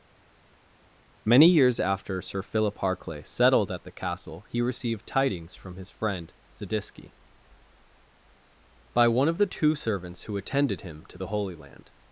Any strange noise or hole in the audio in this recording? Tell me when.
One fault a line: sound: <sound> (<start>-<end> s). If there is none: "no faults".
no faults